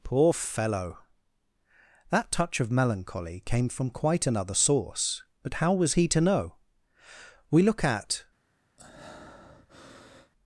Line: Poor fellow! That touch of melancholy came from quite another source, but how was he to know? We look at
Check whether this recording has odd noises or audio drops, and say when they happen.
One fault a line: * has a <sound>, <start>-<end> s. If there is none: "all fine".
* has a breath, 8.8-10.3 s